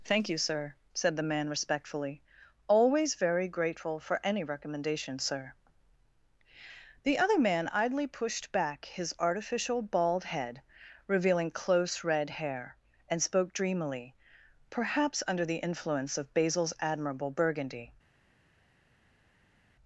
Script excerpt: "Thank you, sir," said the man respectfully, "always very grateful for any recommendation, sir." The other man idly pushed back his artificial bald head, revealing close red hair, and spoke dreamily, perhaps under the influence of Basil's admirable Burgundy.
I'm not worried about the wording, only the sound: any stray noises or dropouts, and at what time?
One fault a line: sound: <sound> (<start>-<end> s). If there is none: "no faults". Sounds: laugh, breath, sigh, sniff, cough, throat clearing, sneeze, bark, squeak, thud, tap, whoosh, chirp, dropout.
no faults